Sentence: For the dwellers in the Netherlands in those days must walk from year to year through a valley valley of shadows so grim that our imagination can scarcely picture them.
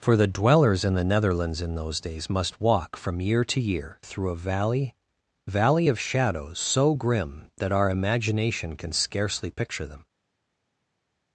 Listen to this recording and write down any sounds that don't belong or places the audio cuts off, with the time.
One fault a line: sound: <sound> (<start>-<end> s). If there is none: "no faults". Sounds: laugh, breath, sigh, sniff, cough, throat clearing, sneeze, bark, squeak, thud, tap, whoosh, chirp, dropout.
no faults